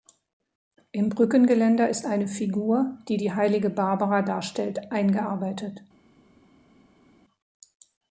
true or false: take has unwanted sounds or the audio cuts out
false